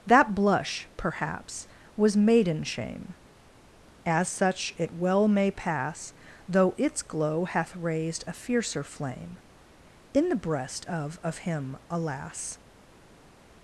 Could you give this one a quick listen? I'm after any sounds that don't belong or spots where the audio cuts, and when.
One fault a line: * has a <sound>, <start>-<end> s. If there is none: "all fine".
all fine